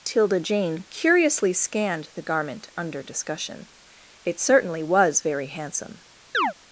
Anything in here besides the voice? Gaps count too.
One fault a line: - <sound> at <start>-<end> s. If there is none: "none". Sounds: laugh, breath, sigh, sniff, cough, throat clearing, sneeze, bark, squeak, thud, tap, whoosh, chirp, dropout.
- chirp at 6.3-6.5 s